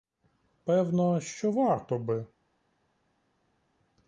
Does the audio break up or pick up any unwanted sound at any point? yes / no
no